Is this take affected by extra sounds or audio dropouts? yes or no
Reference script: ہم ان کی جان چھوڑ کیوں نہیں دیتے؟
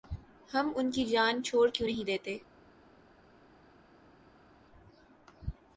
no